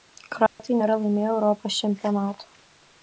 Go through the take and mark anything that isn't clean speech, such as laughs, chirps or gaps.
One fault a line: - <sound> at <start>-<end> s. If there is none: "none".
- dropout at 0.5-0.6 s